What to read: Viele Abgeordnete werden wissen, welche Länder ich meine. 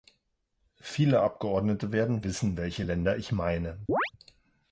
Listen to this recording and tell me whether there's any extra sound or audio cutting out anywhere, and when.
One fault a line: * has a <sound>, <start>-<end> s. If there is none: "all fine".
* has a chirp, 3.9-4.1 s